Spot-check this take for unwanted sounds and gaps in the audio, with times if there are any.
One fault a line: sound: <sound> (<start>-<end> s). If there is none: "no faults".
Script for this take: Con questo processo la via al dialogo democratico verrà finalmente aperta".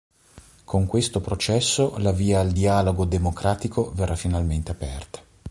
no faults